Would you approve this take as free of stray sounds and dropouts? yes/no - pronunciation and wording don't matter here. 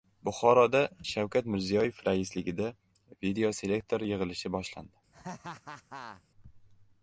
no